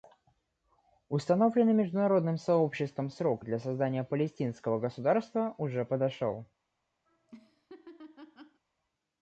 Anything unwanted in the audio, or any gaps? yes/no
yes